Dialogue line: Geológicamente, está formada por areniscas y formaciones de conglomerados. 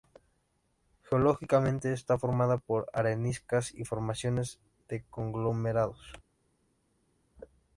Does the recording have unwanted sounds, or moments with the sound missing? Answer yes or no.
no